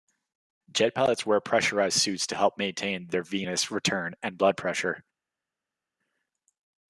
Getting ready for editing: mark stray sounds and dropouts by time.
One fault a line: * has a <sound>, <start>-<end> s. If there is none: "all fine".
all fine